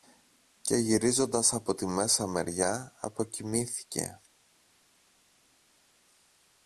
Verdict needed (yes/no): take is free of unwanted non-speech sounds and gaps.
yes